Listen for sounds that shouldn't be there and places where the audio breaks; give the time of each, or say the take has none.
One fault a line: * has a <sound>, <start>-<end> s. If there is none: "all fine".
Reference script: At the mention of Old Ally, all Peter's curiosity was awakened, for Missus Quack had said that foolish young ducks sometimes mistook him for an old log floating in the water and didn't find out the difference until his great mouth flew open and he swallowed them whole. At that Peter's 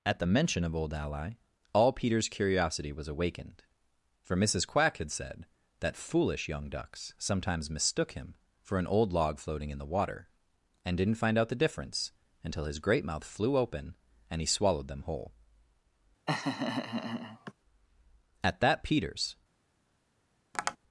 * has a laugh, 16.3-17.5 s
* has a tap, 20.5-20.8 s